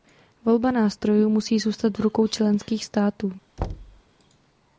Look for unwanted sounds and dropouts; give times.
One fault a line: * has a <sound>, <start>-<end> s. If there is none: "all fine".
* has a thud, 3.6-4.0 s